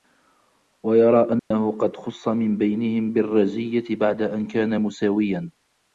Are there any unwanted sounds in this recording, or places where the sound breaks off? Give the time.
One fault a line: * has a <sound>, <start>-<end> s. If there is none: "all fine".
* has a dropout, 1.4-1.5 s